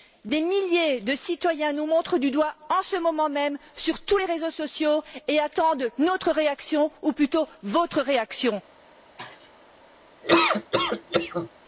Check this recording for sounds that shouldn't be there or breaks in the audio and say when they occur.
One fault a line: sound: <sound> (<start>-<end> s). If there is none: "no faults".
sound: sneeze (9.2-9.5 s)
sound: laugh (10.2-11.5 s)